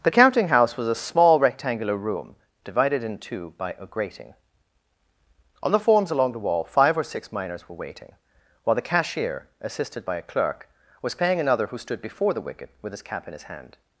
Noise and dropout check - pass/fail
pass